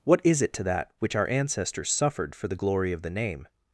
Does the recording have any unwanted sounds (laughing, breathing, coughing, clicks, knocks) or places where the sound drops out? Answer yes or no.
no